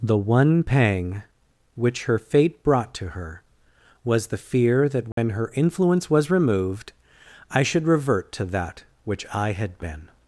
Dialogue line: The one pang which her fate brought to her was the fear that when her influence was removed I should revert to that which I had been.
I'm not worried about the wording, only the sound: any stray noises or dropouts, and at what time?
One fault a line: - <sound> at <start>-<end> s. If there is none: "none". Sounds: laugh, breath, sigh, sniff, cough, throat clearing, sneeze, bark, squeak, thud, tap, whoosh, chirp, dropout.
- dropout at 5.1-5.2 s